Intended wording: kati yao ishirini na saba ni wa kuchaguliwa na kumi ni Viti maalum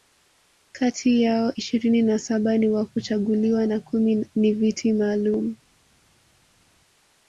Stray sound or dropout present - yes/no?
no